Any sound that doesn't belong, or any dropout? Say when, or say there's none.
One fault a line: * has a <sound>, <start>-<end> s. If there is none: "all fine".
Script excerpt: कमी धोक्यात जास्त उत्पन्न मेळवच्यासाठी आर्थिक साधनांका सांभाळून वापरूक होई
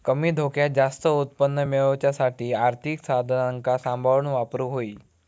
all fine